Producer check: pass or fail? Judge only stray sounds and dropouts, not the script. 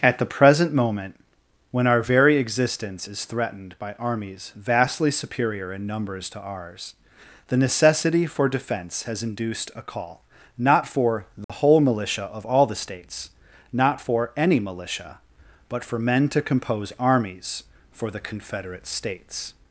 fail